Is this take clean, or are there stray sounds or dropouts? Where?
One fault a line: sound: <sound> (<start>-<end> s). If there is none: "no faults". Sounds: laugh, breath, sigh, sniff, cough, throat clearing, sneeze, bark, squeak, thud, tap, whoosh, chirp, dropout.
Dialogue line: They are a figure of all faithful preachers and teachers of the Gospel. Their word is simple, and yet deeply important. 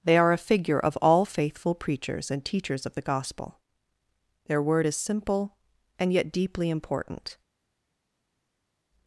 no faults